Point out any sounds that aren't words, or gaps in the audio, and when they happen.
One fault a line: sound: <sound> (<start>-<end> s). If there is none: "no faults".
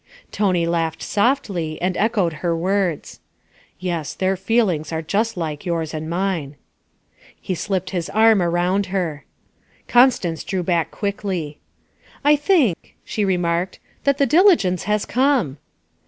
sound: dropout (12.7-12.8 s)